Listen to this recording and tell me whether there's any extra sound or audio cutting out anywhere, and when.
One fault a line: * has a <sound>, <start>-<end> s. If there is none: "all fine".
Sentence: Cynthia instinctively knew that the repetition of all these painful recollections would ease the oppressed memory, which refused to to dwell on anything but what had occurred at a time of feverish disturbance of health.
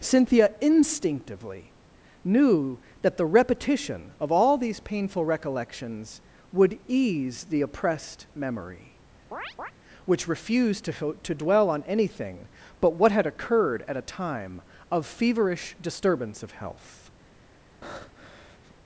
* has a chirp, 9.3-9.7 s
* has a breath, 17.8-18.7 s